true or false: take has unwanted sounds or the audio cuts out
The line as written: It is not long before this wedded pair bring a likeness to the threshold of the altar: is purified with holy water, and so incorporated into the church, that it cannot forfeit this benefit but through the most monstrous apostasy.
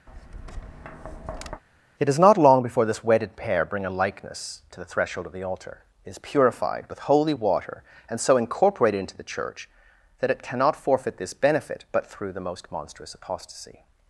true